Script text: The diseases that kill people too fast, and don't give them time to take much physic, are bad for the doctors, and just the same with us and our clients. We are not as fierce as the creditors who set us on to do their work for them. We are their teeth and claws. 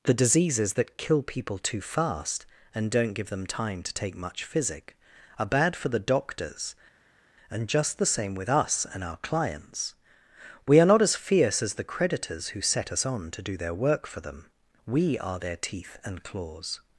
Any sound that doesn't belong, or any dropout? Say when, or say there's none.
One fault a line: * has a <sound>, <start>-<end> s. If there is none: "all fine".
all fine